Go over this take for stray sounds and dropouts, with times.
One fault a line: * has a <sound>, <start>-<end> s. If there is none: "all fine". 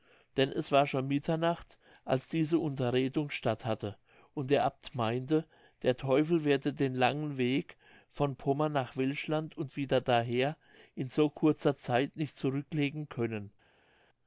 all fine